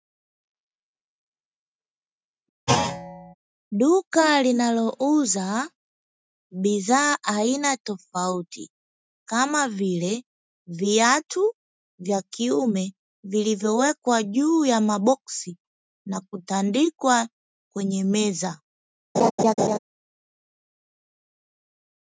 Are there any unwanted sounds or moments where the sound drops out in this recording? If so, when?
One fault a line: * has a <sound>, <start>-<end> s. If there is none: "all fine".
* has a thud, 2.7-3.3 s
* has a laugh, 19.1-19.8 s